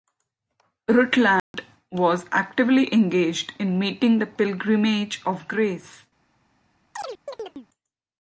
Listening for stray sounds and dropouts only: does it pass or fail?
fail